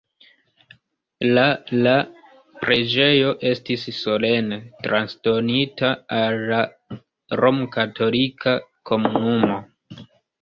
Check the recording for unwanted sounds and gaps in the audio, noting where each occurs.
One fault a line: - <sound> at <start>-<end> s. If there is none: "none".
none